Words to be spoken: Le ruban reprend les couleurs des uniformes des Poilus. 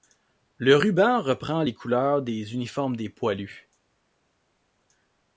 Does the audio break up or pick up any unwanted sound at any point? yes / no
no